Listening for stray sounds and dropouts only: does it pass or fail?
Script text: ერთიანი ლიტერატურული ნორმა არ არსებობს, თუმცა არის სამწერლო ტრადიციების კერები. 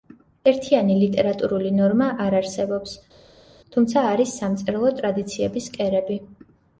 pass